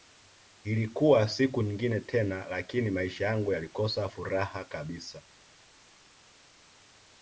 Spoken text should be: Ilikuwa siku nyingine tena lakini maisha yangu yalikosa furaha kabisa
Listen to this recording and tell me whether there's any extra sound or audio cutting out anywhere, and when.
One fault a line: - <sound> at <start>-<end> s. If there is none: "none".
none